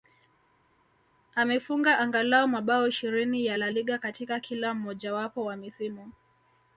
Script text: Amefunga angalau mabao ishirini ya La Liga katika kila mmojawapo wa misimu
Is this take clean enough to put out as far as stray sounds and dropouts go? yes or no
yes